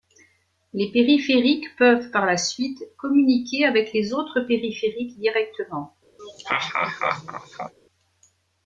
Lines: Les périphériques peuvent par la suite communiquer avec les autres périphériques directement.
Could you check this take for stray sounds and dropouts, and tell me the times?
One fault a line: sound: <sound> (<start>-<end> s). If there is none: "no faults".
sound: laugh (6.2-7.7 s)